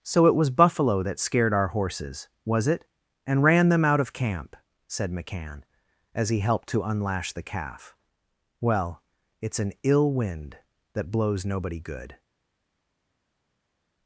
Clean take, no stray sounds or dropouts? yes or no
yes